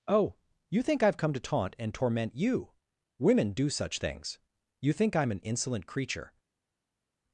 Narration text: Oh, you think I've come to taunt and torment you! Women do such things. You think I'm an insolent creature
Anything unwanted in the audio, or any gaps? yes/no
no